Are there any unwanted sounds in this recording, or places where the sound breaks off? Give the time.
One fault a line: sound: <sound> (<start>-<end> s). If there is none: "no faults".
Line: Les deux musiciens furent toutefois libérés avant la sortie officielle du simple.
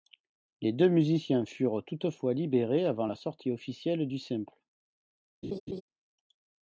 sound: laugh (5.4-5.8 s)